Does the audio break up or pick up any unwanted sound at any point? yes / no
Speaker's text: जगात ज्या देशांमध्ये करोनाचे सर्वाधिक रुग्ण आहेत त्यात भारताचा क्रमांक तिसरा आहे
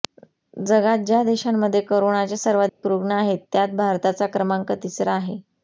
yes